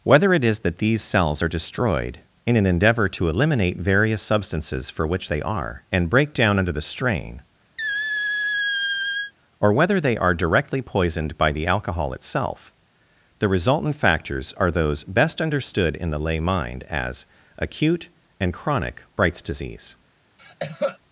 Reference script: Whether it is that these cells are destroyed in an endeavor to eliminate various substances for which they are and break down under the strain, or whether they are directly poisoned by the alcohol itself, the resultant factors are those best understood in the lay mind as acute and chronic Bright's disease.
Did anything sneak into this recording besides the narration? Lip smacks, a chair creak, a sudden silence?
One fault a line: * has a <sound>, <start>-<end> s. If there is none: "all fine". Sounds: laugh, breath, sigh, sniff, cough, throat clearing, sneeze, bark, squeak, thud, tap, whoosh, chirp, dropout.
* has a squeak, 7.8-9.3 s
* has a cough, 20.4-21.0 s